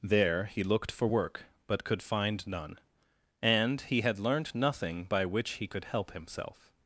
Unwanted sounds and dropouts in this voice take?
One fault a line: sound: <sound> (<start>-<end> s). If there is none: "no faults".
no faults